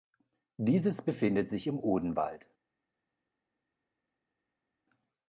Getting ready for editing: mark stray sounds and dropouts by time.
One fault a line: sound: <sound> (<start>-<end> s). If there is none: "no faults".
no faults